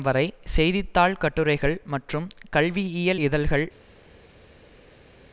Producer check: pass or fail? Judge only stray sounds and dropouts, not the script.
pass